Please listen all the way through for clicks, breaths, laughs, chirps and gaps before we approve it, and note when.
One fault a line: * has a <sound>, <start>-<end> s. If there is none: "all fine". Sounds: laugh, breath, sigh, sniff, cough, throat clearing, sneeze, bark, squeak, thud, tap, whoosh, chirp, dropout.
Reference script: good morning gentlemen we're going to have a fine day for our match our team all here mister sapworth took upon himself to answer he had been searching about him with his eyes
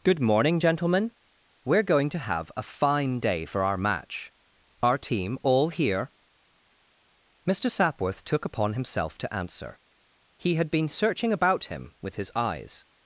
all fine